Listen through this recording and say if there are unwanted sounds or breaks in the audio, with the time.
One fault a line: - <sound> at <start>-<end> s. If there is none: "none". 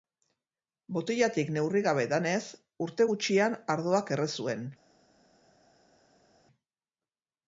none